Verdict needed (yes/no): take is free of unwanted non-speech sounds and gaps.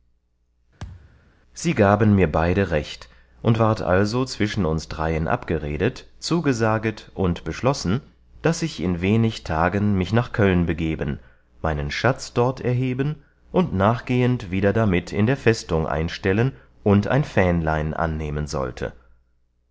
no